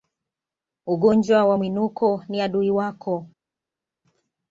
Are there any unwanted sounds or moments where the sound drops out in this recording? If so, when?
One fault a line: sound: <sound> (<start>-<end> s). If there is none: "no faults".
no faults